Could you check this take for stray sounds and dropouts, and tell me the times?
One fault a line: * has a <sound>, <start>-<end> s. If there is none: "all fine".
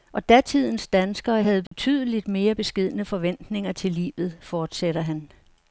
* has a dropout, 1.7-1.7 s